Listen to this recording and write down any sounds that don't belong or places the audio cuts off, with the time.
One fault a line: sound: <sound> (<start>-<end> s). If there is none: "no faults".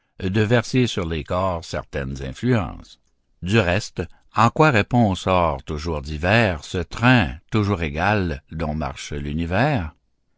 no faults